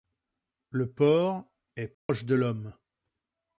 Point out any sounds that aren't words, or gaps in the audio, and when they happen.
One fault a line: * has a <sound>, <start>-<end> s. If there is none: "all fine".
* has a dropout, 1.9-2.1 s